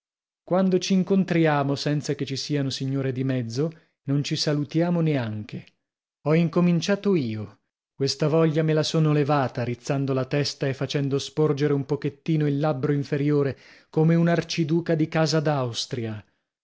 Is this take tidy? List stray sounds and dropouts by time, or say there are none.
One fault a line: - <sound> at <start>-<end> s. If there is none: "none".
none